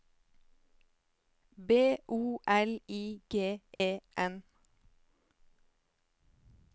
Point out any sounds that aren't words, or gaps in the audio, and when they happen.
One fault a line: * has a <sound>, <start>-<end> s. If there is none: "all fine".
* has a dropout, 3.7-3.8 s